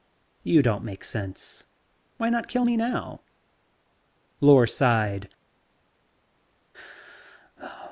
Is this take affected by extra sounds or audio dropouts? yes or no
no